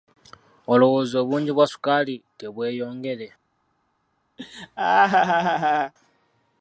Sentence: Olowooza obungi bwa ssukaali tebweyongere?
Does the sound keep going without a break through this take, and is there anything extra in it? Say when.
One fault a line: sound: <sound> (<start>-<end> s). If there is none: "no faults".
sound: laugh (4.4-5.9 s)